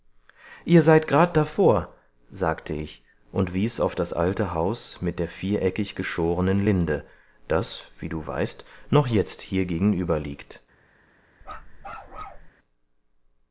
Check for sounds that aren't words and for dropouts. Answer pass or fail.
fail